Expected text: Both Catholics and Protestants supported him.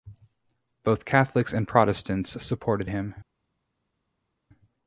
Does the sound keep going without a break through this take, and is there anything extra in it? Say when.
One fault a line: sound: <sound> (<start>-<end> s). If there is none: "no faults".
no faults